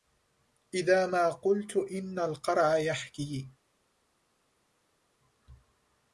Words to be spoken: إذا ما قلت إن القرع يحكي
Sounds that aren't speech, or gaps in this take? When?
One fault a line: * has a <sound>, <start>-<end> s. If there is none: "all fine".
all fine